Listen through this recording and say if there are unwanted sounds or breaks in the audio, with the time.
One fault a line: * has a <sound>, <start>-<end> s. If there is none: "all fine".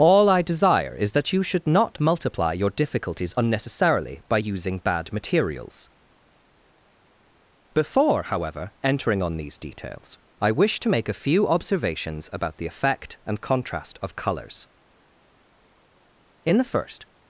all fine